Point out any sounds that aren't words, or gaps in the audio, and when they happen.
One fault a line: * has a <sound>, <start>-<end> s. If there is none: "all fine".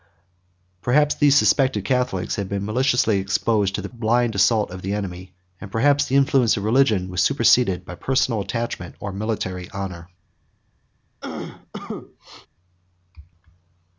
* has a cough, 11.2-12.5 s